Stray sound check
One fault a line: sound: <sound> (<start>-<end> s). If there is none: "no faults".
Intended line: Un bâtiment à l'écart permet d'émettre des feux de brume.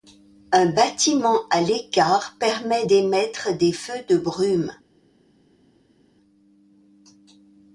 no faults